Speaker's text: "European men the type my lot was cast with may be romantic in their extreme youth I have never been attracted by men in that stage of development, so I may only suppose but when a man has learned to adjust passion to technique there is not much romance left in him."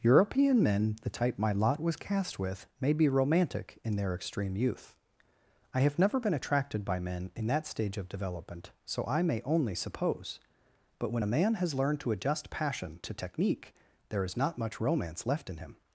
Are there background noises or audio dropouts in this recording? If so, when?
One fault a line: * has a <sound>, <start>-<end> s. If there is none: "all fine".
all fine